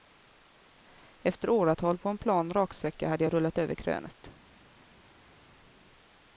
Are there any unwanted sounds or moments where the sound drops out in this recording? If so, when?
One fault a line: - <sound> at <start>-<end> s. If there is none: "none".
none